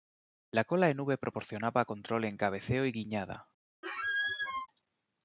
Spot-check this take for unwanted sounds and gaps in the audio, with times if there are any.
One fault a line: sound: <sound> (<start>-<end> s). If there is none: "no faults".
sound: squeak (3.8-4.7 s)